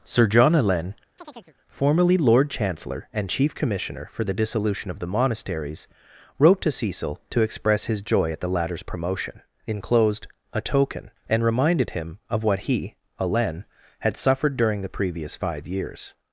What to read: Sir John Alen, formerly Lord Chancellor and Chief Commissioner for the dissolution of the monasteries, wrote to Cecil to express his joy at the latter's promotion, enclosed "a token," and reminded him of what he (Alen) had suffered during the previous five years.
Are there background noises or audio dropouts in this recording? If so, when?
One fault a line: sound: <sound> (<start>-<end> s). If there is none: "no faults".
sound: chirp (1.2-1.6 s)